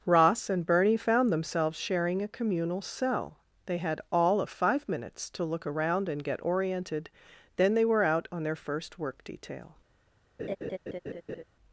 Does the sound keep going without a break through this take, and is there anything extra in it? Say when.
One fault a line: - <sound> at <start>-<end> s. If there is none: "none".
- laugh at 10.4-11.4 s